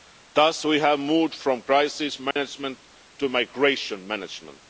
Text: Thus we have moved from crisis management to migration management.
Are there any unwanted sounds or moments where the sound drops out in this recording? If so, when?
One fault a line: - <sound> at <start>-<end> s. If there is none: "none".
- dropout at 2.3-2.4 s